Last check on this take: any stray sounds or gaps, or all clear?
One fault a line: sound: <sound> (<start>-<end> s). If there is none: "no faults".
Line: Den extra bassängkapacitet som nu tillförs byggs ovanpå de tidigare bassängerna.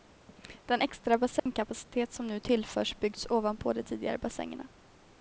sound: dropout (1.4-1.5 s)